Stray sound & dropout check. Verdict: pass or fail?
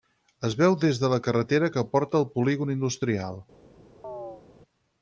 fail